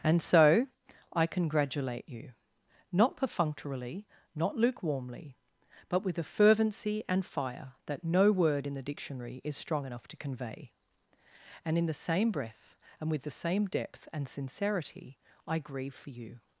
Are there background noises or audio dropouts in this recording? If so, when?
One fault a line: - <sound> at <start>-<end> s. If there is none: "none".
none